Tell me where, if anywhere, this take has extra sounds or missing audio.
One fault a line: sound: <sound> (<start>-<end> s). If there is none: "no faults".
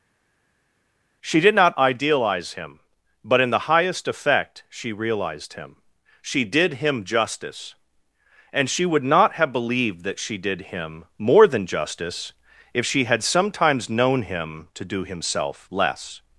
no faults